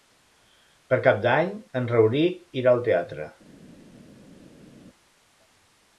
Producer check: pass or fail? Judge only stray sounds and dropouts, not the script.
pass